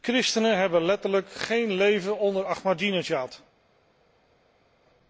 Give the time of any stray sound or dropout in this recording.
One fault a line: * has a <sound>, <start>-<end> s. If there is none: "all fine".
all fine